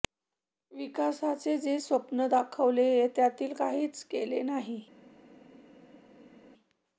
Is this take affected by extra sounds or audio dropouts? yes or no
no